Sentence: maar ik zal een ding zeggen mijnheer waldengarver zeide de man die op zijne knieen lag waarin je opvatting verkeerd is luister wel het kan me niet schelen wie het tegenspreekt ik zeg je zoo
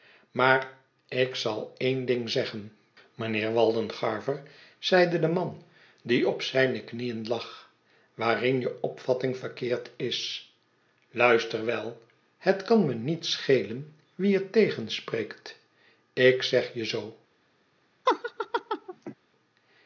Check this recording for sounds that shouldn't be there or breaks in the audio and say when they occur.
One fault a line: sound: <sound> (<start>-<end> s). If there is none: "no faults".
sound: laugh (18.1-19.2 s)